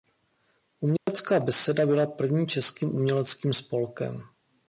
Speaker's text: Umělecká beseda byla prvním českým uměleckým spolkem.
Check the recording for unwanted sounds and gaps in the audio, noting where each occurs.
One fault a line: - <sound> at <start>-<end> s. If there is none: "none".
- dropout at 1.0-1.1 s